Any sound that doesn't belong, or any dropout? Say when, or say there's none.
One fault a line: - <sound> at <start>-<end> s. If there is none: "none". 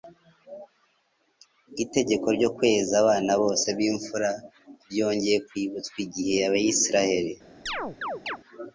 - chirp at 7.7-8.4 s